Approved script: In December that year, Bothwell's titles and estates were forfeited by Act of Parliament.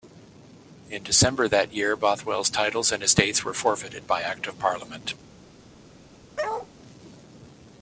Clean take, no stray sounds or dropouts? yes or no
no